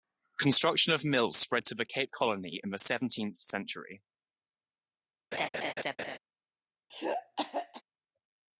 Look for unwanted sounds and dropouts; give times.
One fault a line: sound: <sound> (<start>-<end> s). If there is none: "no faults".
sound: laugh (5.3-6.2 s)
sound: throat clearing (6.9-7.8 s)